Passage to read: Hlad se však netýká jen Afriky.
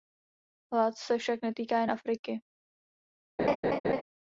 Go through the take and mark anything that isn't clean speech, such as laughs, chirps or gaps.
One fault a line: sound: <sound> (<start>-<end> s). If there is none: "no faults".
sound: laugh (3.4-4.0 s)